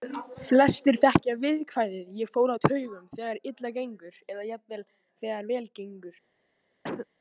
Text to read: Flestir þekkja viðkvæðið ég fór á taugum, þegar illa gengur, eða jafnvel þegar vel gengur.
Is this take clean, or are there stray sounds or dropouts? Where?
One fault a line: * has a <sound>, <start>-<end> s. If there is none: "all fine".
* has a cough, 6.8-7.1 s